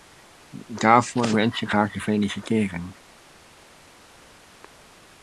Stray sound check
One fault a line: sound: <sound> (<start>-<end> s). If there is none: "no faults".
no faults